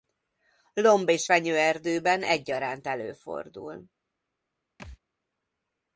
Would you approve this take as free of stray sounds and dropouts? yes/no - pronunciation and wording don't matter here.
no